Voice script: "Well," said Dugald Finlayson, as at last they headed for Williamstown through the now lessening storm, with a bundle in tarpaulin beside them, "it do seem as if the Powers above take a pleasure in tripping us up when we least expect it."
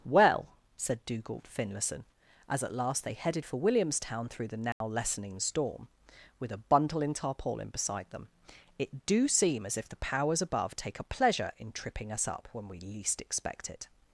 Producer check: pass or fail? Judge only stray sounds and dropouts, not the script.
fail